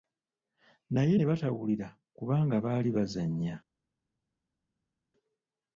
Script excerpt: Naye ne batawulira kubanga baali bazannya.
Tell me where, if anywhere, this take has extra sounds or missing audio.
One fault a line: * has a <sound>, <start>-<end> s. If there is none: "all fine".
all fine